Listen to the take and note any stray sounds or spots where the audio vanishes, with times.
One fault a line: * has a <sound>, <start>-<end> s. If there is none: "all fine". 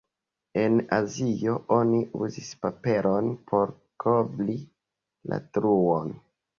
all fine